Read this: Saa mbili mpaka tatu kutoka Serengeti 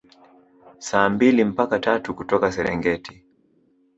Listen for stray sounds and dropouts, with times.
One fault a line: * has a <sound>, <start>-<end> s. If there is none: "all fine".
all fine